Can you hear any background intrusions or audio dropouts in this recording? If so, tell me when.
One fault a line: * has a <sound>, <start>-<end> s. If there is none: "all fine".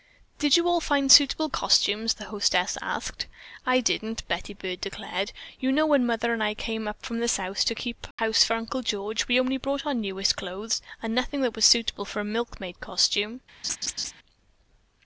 * has a dropout, 8.1-8.2 s
* has a laugh, 13.6-14.1 s